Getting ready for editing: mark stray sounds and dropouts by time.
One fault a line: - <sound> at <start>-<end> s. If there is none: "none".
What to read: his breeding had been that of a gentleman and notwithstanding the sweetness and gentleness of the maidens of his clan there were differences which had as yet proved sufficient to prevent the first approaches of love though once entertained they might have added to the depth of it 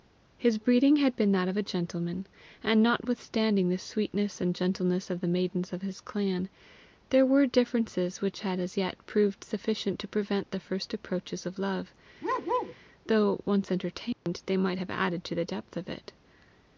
- bark at 12.2-12.8 s
- dropout at 14.1-14.3 s